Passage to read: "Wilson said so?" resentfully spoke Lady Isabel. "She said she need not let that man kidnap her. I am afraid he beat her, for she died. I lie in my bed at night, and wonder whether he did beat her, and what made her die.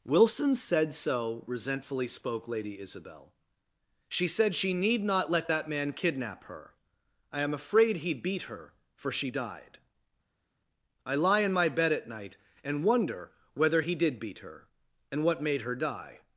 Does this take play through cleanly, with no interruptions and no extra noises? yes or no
yes